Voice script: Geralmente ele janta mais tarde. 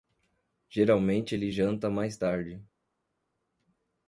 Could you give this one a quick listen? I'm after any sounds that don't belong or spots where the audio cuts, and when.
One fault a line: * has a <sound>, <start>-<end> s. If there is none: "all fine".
all fine